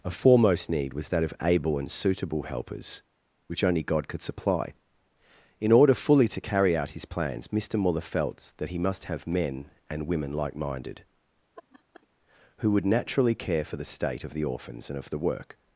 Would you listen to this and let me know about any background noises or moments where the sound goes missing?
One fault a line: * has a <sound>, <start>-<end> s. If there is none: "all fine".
* has a laugh, 11.6-12.1 s